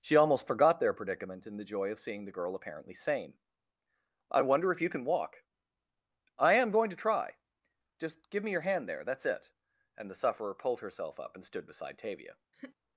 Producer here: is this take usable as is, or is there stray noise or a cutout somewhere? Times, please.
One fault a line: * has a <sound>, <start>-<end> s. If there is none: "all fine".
* has a laugh, 12.5-12.8 s